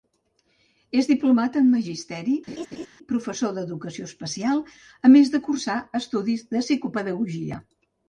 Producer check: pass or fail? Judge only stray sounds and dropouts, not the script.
fail